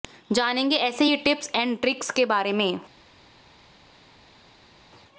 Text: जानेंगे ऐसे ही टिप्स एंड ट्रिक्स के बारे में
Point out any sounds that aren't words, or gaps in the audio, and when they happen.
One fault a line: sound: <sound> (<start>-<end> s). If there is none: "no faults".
no faults